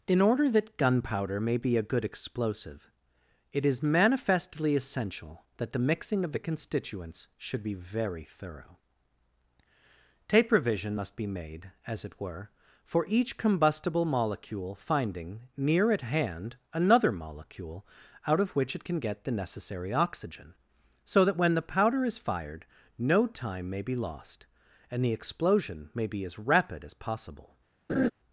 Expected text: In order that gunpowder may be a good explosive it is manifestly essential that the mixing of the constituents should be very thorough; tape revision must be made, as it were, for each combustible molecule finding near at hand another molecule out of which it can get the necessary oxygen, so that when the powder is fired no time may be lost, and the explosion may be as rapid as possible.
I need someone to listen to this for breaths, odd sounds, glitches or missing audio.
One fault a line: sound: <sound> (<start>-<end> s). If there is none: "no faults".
sound: laugh (27.9-28.1 s)